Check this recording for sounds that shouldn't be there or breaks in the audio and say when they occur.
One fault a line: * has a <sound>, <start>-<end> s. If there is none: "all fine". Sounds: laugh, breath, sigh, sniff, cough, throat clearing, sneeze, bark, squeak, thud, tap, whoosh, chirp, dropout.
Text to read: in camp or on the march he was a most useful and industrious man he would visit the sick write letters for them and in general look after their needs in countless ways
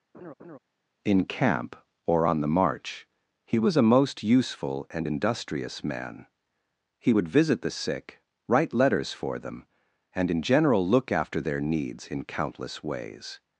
* has a laugh, 0.1-0.6 s